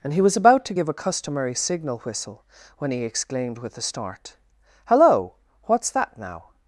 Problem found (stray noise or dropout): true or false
false